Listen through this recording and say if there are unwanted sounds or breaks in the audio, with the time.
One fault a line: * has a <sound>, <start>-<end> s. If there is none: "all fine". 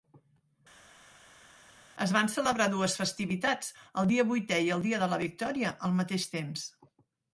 all fine